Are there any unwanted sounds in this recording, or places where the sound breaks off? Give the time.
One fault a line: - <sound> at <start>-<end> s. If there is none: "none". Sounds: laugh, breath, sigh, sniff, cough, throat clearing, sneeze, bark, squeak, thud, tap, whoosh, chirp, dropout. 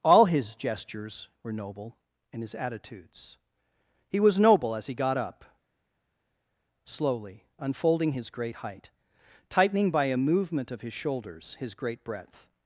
none